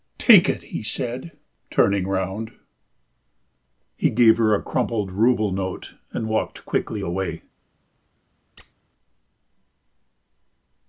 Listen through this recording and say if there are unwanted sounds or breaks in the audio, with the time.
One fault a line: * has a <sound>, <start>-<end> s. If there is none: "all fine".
* has a squeak, 8.6-8.7 s